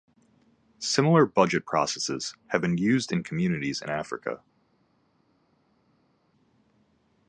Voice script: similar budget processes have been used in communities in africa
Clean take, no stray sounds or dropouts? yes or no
yes